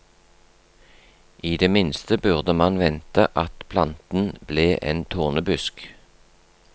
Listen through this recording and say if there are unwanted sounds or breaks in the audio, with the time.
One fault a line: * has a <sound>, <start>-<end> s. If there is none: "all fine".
all fine